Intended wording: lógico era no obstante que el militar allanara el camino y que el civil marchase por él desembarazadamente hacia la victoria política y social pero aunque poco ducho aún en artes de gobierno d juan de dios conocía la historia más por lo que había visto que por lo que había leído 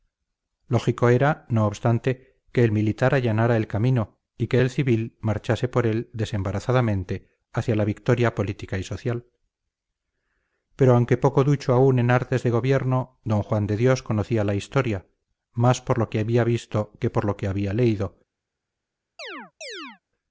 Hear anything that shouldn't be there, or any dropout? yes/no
yes